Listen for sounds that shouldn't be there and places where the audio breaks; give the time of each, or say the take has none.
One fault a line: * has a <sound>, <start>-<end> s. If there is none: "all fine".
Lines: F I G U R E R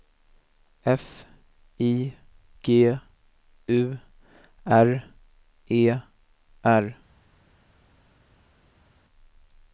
all fine